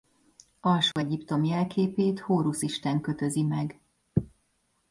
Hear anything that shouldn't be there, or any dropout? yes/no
yes